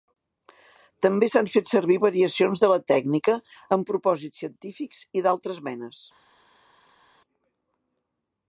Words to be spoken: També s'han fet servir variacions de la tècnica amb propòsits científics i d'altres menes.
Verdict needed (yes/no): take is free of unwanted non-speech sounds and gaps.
yes